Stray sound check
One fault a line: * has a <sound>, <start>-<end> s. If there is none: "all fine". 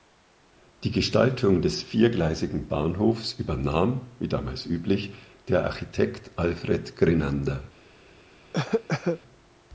* has a cough, 8.5-9.2 s